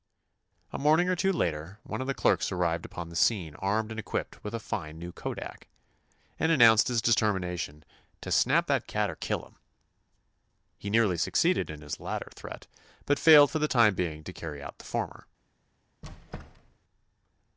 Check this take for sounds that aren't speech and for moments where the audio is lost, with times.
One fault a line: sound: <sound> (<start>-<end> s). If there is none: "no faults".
sound: squeak (16.0-16.8 s)